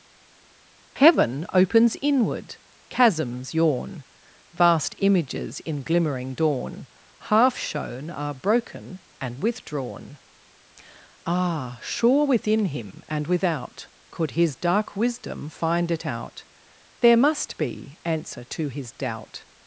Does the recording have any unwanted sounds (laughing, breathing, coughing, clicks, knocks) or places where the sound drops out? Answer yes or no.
no